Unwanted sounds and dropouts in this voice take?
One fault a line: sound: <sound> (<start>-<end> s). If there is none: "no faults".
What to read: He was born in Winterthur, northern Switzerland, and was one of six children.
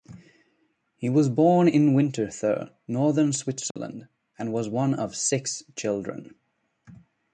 sound: dropout (3.7-3.8 s)